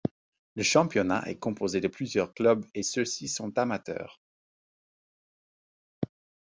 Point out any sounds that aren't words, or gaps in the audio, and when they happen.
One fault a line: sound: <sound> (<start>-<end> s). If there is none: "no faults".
no faults